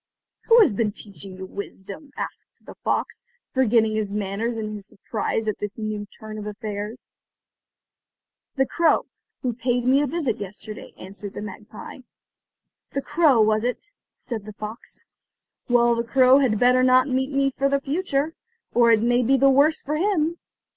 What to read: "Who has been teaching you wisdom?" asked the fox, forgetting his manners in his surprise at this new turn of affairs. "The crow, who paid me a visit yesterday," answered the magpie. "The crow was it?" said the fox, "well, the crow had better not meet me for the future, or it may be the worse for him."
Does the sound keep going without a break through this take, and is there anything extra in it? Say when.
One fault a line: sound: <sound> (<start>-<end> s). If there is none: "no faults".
no faults